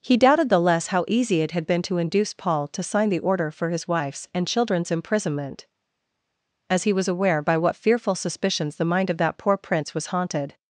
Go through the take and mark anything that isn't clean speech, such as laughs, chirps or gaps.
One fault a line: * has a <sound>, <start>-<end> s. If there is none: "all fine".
all fine